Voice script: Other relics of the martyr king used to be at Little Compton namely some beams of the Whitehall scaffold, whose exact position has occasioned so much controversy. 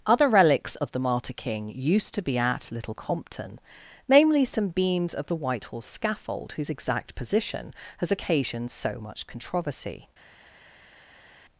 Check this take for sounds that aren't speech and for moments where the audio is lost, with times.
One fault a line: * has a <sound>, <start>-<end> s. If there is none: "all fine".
all fine